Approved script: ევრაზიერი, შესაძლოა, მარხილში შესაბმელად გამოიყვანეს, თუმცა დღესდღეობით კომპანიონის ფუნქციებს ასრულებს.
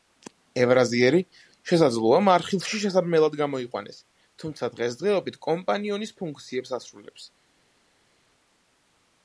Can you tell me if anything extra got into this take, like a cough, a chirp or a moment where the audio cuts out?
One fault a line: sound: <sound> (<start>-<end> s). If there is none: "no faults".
no faults